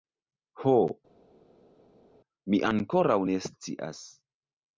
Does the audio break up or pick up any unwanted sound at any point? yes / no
no